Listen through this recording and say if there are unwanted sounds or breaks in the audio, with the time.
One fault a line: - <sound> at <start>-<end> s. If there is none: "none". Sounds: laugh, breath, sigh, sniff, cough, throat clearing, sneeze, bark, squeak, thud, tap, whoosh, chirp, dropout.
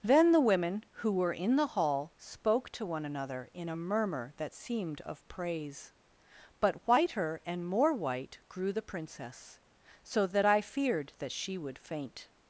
none